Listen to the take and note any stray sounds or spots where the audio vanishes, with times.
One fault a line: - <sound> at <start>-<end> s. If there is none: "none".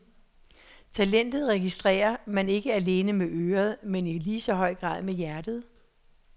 none